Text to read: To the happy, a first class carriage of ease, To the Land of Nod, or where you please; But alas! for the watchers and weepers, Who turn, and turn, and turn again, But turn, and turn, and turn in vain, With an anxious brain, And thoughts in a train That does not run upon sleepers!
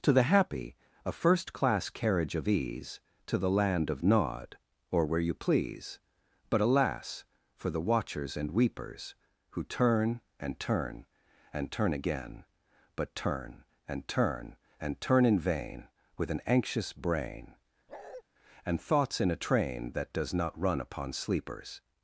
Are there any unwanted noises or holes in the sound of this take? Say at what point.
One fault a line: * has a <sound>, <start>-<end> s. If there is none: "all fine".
* has a bark, 17.9-18.2 s